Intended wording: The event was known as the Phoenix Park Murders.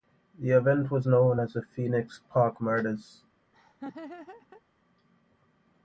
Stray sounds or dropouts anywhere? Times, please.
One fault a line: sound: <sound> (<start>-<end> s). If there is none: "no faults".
sound: laugh (3.5-4.6 s)